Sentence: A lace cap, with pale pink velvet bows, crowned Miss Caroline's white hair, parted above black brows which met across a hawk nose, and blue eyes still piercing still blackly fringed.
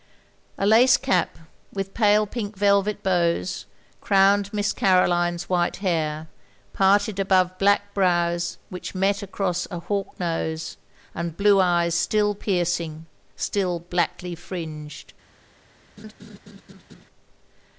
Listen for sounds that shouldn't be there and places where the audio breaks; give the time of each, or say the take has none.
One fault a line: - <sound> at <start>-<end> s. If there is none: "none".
- laugh at 16.0-17.1 s